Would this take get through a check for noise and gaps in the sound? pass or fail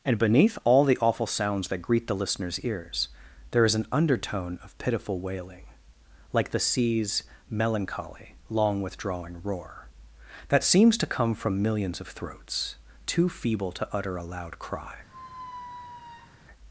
fail